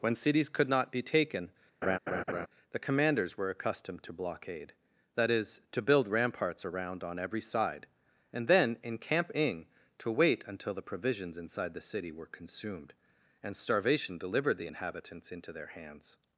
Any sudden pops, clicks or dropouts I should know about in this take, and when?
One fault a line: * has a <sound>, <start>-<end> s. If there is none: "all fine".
* has a laugh, 1.8-2.5 s